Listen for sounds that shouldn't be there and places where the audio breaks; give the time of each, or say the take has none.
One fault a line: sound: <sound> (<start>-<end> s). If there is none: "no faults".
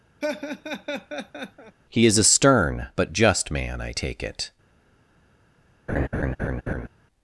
sound: laugh (0.2-1.8 s)
sound: laugh (5.9-6.9 s)